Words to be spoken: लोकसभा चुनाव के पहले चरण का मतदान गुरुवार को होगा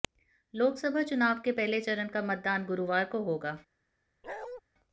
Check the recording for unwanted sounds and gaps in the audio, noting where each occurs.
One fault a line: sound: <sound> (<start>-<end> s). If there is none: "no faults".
sound: bark (4.2-4.6 s)